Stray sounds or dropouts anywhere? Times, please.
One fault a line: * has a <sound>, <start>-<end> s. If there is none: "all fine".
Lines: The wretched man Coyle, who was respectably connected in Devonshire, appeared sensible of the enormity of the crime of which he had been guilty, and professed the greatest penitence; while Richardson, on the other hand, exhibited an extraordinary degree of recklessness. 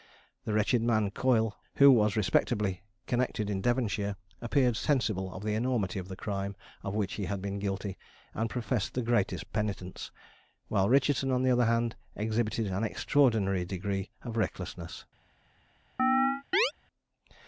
* has a chirp, 16.0-16.7 s